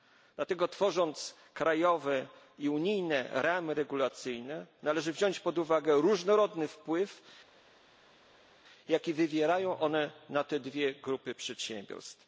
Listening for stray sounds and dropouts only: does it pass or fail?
pass